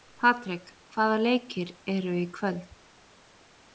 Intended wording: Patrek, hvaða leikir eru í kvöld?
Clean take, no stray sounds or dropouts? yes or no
yes